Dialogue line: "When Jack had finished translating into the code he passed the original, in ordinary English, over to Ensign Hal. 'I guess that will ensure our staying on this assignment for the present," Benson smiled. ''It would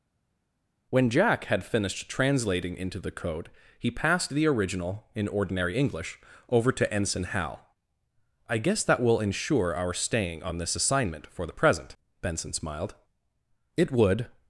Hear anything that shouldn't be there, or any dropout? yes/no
no